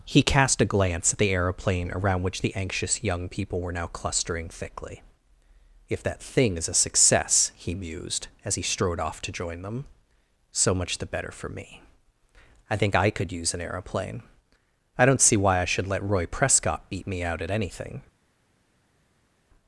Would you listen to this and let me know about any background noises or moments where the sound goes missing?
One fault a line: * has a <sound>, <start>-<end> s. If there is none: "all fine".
all fine